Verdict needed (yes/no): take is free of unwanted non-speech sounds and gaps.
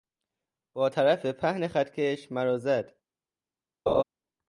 no